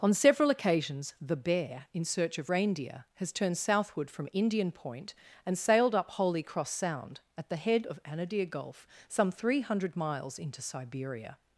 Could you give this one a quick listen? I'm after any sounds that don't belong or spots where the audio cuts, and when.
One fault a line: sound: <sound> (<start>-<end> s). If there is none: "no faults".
no faults